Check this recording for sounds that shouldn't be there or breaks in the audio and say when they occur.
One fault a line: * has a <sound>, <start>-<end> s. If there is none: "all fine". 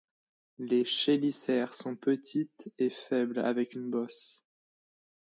all fine